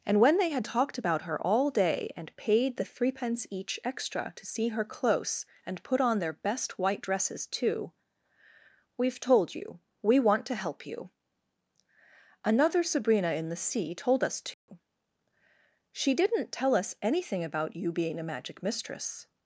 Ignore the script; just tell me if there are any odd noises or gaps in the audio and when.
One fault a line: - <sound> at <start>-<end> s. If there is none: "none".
- dropout at 14.5-14.7 s